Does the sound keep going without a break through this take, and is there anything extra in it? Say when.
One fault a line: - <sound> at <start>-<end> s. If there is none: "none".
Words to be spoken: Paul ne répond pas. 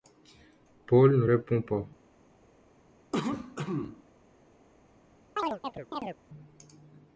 - cough at 3.1-4.0 s
- chirp at 5.4-6.2 s